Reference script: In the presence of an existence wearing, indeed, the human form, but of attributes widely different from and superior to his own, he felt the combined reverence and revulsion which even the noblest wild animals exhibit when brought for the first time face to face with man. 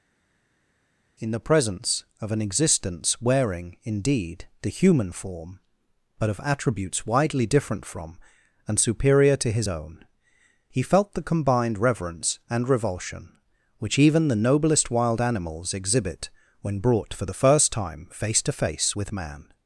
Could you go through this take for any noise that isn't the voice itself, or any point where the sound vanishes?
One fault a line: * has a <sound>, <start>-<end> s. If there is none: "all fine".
all fine